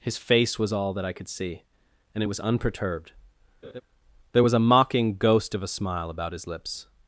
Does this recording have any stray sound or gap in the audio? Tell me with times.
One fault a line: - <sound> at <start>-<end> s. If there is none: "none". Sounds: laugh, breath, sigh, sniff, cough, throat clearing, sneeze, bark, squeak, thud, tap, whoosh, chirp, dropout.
- laugh at 3.6-3.8 s